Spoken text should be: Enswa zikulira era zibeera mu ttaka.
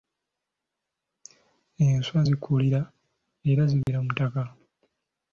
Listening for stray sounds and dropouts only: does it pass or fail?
fail